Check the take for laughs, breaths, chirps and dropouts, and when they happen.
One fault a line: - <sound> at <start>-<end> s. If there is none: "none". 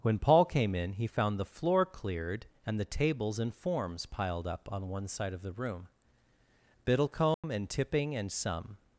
- dropout at 7.3-7.4 s